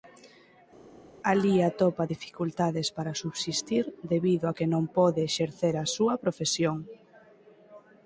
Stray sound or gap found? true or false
false